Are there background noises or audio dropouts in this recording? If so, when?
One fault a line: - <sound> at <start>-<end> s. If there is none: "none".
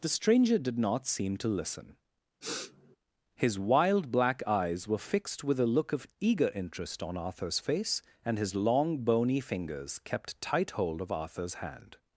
- sniff at 2.4-3.0 s